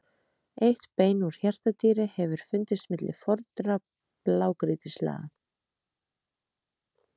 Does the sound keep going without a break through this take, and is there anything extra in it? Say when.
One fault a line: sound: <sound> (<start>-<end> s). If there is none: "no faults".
no faults